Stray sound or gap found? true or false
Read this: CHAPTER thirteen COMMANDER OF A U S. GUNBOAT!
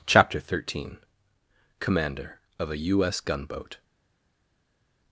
false